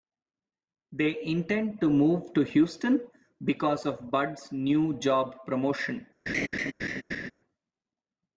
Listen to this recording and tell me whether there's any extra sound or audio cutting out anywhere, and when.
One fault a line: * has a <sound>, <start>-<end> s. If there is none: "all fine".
* has a laugh, 6.3-7.3 s